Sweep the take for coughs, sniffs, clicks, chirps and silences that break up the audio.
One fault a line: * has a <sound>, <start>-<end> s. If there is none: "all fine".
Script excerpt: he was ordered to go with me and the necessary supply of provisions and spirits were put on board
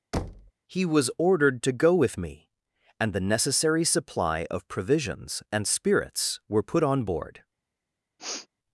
* has a thud, 0.1-0.5 s
* has a sniff, 8.2-8.5 s